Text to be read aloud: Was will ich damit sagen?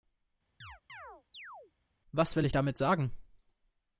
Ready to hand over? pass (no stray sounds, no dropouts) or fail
fail